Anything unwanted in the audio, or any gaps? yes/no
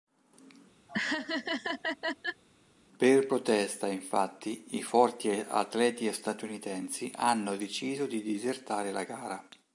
yes